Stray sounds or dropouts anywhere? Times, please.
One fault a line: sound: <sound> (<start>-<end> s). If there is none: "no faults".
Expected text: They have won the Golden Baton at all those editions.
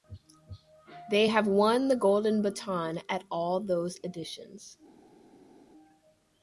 no faults